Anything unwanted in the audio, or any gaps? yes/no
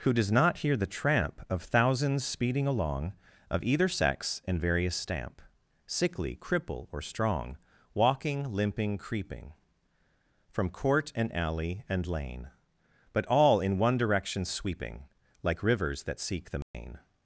yes